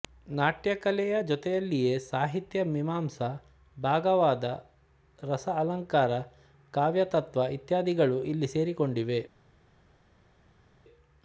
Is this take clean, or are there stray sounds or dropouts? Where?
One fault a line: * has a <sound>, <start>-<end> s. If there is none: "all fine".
all fine